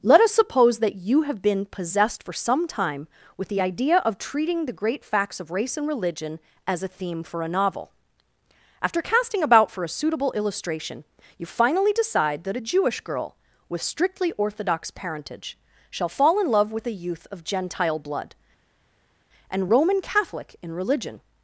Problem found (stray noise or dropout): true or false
false